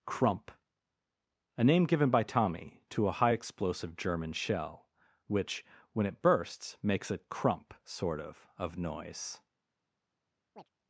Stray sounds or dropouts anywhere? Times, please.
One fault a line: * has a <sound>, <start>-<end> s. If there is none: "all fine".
* has a chirp, 10.6-10.7 s